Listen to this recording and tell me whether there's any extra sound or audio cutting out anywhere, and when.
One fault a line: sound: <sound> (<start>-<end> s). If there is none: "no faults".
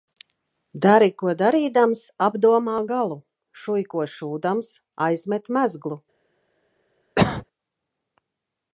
sound: cough (7.2-7.5 s)